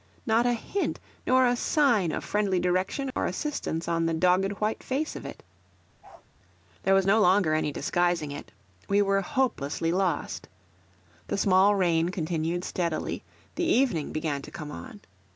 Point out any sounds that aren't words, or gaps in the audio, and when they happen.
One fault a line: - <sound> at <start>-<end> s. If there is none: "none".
- dropout at 3.1-3.2 s
- bark at 6.0-6.3 s